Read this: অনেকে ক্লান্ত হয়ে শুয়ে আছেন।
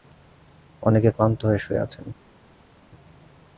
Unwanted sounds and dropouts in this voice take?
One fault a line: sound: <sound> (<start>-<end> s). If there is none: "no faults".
no faults